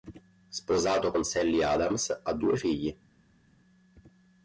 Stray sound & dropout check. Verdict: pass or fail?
pass